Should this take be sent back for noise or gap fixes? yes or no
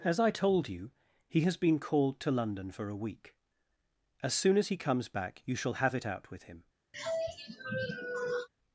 yes